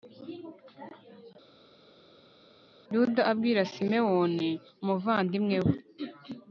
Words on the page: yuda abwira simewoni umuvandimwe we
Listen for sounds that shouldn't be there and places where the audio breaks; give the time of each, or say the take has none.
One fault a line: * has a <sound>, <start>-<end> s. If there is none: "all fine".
all fine